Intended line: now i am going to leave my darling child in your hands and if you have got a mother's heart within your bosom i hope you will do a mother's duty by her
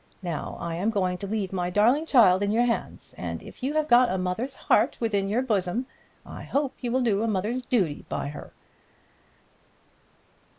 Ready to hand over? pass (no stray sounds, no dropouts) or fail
pass